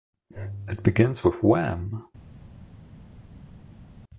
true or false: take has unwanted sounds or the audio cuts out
false